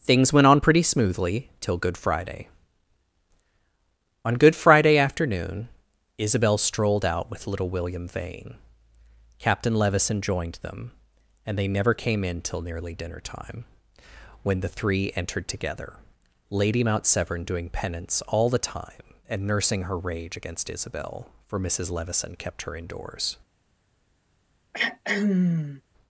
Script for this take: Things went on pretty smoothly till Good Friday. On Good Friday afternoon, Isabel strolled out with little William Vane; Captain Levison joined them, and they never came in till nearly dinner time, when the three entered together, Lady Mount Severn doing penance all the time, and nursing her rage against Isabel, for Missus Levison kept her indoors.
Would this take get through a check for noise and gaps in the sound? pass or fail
fail